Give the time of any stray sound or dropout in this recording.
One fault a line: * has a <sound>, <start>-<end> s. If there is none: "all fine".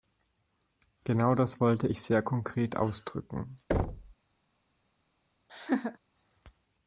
* has a thud, 3.7-4.1 s
* has a laugh, 5.5-6.0 s